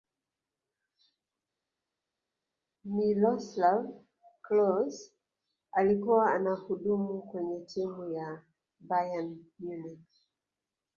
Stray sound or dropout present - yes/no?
no